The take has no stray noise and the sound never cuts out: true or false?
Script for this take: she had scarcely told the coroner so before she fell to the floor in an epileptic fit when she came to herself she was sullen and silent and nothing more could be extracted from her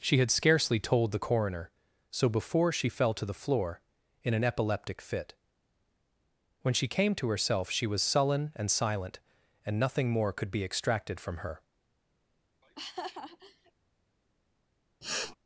false